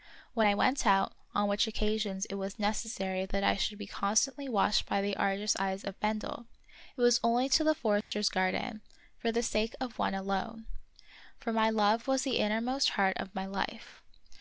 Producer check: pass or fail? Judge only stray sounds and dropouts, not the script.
fail